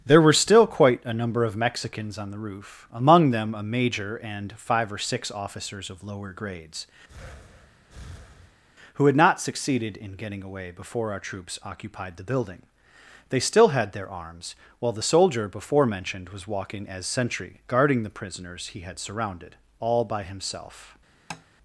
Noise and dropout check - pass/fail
fail